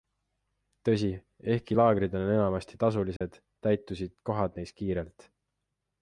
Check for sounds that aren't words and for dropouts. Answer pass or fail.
fail